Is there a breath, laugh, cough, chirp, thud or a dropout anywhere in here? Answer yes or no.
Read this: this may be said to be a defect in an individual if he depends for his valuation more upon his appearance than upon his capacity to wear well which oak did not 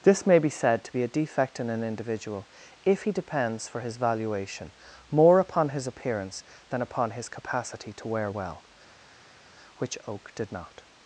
no